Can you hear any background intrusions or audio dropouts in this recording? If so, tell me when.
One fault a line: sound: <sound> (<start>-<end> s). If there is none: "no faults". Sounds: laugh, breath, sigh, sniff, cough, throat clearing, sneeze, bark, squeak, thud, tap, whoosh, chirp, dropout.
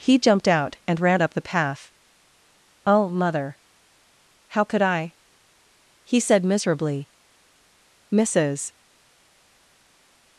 no faults